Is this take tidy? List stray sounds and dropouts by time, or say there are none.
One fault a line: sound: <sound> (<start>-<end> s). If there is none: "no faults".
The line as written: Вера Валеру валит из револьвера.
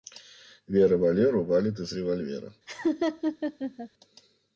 sound: laugh (2.7-3.9 s)